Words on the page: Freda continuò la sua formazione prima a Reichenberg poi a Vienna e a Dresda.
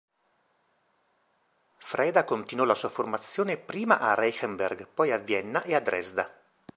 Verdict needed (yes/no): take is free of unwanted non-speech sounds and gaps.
yes